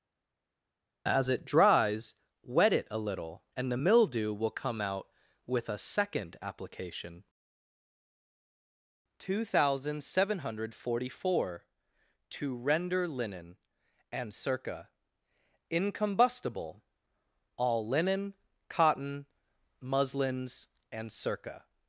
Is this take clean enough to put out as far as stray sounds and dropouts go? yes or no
yes